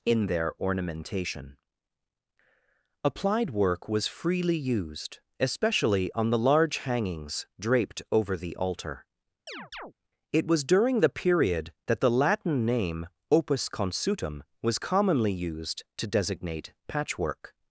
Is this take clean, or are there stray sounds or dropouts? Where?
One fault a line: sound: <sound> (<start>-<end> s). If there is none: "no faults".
sound: chirp (9.5-9.9 s)